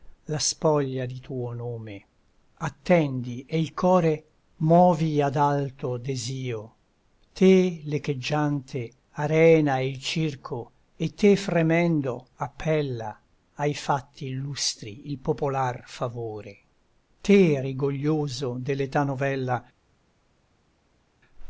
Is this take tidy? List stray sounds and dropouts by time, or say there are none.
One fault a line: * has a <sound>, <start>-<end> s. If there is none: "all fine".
all fine